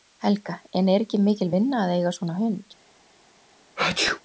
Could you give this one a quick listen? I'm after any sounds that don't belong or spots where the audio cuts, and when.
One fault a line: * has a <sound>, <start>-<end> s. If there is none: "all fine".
* has a sneeze, 3.8-4.2 s